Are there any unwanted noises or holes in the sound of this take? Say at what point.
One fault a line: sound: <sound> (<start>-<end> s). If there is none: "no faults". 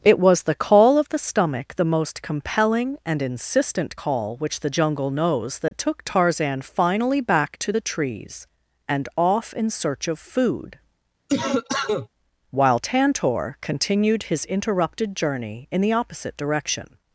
sound: dropout (5.7-5.7 s)
sound: cough (11.3-12.1 s)